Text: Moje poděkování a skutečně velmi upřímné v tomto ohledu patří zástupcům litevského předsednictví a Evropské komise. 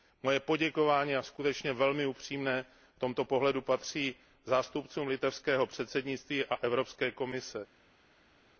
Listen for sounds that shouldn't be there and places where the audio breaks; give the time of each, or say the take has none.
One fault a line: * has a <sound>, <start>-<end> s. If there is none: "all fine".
all fine